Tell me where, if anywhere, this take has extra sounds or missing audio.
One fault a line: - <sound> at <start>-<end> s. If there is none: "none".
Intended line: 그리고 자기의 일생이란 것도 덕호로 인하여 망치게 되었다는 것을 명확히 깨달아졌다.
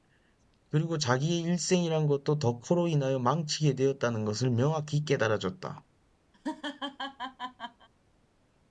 - laugh at 6.3-7.9 s